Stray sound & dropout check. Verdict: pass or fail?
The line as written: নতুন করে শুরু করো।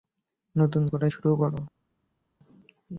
pass